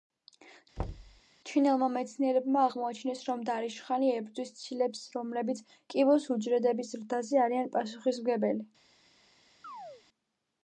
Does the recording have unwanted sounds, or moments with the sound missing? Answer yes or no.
yes